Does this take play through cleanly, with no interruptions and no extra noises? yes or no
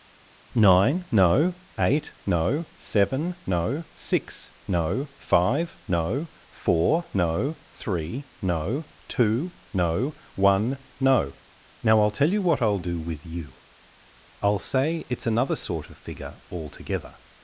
yes